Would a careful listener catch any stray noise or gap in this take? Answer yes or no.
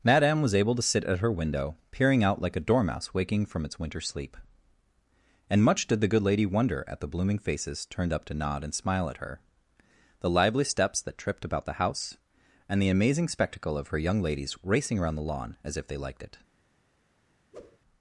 yes